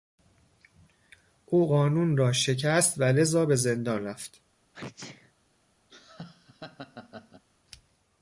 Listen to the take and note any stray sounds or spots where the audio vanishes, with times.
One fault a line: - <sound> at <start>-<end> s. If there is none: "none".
- sneeze at 4.7-5.3 s
- laugh at 5.9-7.4 s